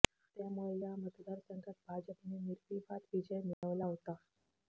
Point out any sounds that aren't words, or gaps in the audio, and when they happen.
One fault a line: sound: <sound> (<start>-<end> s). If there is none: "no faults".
sound: dropout (3.5-3.6 s)